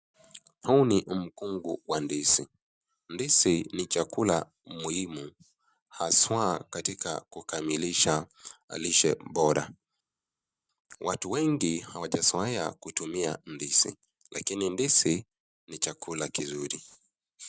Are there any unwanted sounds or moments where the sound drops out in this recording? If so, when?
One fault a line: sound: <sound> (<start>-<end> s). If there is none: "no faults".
no faults